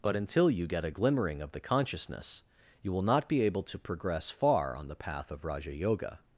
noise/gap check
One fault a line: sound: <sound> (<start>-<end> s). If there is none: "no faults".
no faults